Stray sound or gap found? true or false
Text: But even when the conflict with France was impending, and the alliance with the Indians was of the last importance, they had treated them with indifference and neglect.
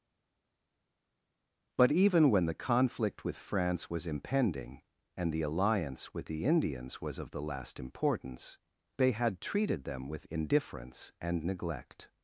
false